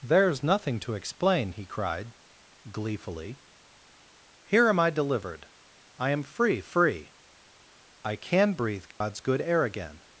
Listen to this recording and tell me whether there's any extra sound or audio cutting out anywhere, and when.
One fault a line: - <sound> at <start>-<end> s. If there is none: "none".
- dropout at 8.9-9.0 s